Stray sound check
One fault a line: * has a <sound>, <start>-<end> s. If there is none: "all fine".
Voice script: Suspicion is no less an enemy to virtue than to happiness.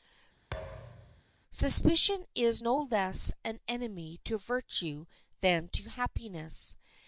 * has a thud, 0.5-1.2 s